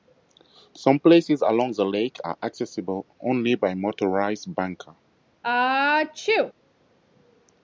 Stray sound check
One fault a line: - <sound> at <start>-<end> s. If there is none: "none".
- sneeze at 5.4-6.5 s